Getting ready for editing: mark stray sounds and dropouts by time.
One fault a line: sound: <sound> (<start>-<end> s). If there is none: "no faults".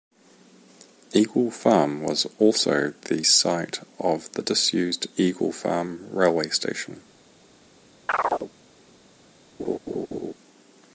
sound: chirp (8.1-8.5 s)
sound: laugh (9.6-10.3 s)